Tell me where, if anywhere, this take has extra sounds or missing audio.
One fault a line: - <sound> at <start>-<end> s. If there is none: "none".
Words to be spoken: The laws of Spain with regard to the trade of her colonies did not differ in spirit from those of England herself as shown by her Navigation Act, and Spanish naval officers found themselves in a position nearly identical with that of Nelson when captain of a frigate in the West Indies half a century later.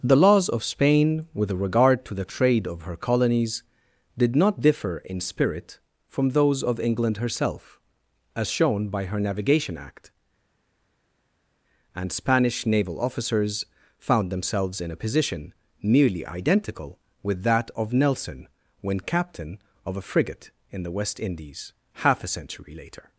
none